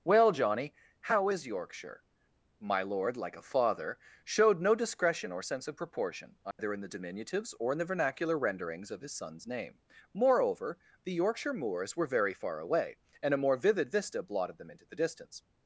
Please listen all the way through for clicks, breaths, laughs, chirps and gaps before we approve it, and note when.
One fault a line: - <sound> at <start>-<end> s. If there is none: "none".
- dropout at 6.5-6.6 s